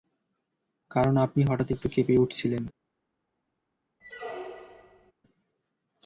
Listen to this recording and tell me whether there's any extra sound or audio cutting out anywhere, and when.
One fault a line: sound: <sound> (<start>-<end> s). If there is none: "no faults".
sound: squeak (4.0-5.1 s)